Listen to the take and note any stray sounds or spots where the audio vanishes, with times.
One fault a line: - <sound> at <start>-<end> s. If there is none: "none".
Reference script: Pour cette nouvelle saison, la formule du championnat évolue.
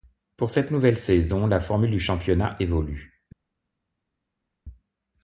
none